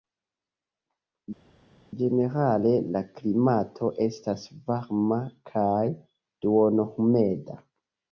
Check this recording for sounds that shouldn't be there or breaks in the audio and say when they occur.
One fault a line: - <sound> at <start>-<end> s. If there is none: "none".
none